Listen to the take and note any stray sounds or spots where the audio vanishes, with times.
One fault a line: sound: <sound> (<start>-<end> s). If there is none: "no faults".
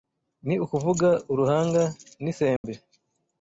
sound: dropout (2.6-2.6 s)